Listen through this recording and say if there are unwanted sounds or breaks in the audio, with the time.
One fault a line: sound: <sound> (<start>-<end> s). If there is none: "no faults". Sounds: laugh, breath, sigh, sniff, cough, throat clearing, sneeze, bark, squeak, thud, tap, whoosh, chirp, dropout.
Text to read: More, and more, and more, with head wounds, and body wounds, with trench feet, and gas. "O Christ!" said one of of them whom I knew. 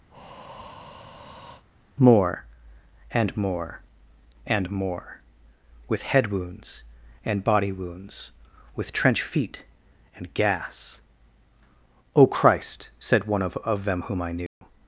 sound: breath (0.1-1.6 s)
sound: dropout (14.5-14.6 s)